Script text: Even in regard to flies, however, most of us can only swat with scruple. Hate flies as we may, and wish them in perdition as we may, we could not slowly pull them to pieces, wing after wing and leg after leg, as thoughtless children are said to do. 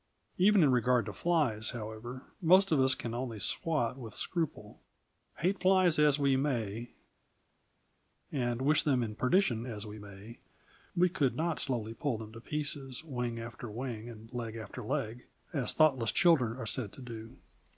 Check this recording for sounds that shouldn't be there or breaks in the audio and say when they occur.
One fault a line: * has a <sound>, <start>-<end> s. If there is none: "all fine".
all fine